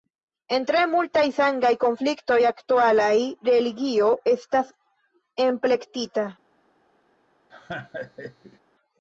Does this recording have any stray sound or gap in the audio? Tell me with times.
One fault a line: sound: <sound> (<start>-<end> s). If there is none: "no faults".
sound: laugh (7.5-8.6 s)